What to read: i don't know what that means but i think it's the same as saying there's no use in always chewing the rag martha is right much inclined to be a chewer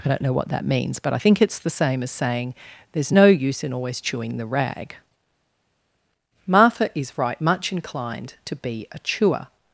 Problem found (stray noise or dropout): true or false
false